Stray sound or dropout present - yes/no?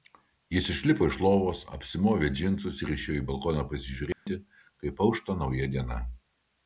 yes